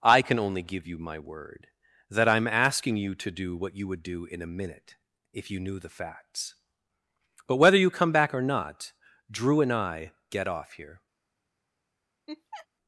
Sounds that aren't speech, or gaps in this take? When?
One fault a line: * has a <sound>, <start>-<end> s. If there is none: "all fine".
* has a laugh, 12.3-12.7 s